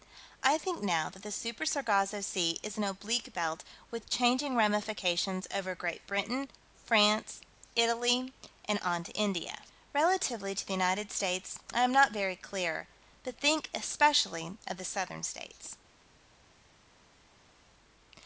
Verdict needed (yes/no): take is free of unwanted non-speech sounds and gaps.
yes